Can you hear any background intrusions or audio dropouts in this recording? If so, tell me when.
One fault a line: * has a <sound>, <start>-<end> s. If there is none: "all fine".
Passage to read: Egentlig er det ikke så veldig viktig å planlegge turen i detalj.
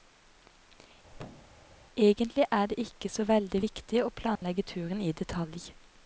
* has a thud, 1.1-1.6 s
* has a dropout, 4.4-4.4 s